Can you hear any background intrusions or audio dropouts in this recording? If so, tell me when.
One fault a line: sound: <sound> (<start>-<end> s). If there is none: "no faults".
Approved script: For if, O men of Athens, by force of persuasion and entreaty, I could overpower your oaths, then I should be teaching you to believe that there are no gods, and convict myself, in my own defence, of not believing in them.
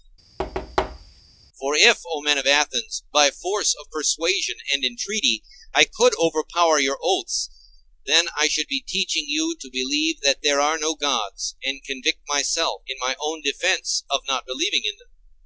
sound: thud (0.4-1.2 s)